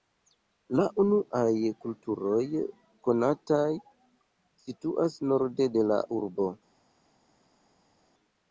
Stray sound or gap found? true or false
false